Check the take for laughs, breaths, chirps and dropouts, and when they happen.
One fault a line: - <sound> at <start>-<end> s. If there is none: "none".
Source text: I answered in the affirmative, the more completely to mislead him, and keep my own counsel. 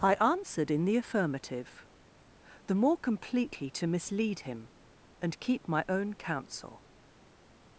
none